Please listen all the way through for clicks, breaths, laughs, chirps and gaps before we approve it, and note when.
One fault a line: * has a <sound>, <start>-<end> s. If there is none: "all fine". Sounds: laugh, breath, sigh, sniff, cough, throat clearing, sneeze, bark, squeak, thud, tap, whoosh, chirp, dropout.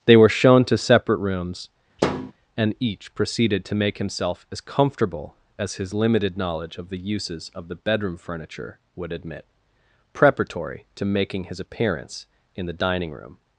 * has a thud, 2.0-2.3 s